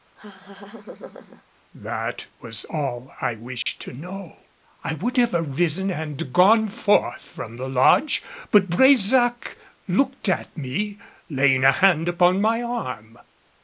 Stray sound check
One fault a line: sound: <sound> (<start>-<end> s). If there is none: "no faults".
sound: laugh (0.2-1.4 s)
sound: dropout (3.6-3.7 s)